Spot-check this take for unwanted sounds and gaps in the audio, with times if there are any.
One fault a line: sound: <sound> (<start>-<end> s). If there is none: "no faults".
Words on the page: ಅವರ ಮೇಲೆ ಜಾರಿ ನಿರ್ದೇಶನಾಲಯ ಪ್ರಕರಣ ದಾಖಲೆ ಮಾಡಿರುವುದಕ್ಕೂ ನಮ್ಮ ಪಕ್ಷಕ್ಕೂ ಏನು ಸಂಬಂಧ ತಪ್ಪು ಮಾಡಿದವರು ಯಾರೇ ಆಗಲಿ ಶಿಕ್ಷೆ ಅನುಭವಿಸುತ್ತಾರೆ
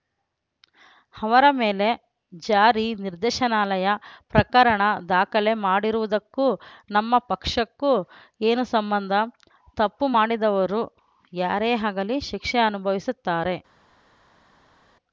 no faults